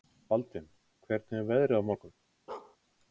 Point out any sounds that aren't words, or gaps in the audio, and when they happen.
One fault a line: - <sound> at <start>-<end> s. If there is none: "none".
- bark at 2.5-2.8 s